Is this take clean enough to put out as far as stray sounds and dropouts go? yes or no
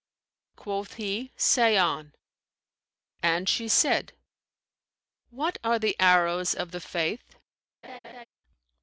no